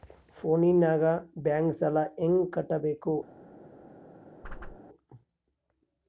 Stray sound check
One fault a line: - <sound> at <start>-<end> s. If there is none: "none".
- whoosh at 4.4-4.8 s